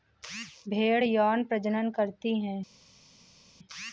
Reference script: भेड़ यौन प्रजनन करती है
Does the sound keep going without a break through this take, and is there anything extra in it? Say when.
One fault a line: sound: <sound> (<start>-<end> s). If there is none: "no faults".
no faults